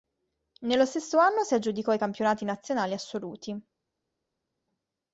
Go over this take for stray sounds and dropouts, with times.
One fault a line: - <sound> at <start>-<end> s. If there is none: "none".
none